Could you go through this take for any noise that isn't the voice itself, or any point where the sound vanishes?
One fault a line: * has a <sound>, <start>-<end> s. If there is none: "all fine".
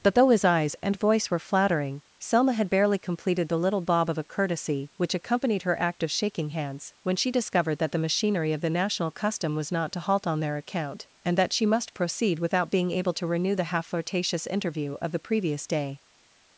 all fine